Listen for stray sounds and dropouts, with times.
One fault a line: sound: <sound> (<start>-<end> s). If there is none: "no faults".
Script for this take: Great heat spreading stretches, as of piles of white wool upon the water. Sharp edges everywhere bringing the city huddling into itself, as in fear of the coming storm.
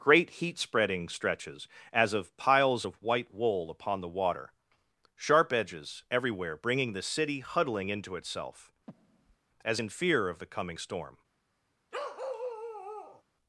sound: breath (8.9-9.4 s)
sound: bark (11.9-13.2 s)